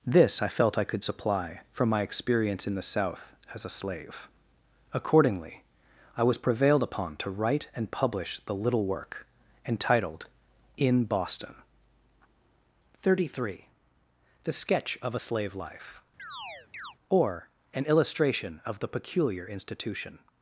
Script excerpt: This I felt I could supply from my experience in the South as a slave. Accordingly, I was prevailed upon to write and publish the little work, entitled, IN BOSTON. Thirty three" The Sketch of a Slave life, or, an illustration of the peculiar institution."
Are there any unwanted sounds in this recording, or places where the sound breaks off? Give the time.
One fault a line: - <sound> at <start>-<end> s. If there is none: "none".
- chirp at 16.2-17.0 s